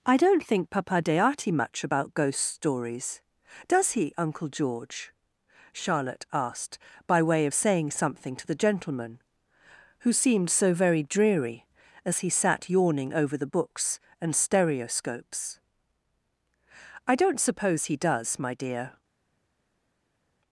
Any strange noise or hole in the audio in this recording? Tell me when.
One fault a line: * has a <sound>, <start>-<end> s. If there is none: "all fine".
all fine